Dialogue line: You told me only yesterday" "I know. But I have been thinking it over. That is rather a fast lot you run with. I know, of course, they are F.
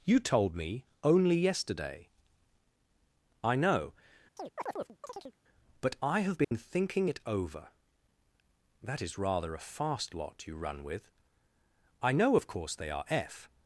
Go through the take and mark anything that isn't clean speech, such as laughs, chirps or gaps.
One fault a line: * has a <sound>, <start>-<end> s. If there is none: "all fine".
* has a chirp, 4.4-5.4 s
* has a dropout, 6.4-6.5 s